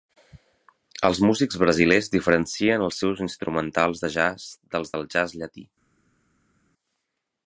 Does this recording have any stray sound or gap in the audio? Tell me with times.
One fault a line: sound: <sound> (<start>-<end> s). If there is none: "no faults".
no faults